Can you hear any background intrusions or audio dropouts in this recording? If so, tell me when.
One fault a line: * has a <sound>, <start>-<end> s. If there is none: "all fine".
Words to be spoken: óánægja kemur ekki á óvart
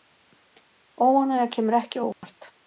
* has a dropout, 2.1-2.2 s